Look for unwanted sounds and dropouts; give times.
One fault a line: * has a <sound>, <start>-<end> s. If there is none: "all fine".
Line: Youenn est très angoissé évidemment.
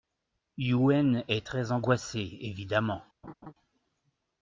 * has a laugh, 3.2-3.5 s